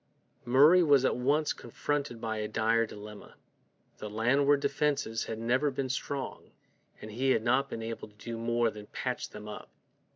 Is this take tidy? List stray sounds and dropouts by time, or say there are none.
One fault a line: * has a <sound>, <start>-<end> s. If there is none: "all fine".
all fine